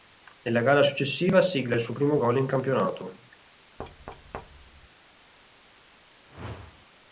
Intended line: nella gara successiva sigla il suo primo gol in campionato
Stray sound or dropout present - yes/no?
yes